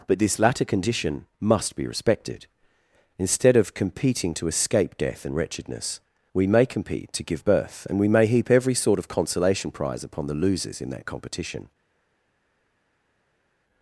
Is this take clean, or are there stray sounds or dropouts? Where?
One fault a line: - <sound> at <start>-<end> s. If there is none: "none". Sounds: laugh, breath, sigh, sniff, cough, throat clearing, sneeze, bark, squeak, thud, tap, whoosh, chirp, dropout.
none